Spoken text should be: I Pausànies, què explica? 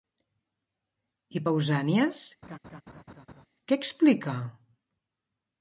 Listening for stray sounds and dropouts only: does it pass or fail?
fail